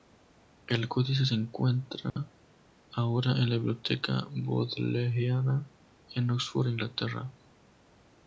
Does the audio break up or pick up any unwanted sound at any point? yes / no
yes